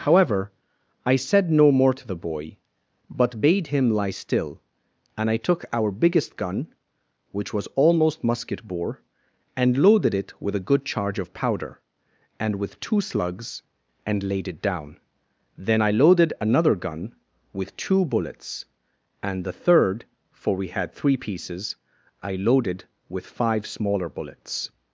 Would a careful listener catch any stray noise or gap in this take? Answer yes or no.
no